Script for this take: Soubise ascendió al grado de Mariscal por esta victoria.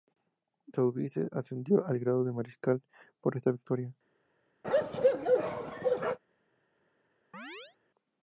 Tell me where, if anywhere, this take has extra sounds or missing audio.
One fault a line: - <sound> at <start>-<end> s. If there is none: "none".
- bark at 4.6-6.2 s
- chirp at 7.3-7.8 s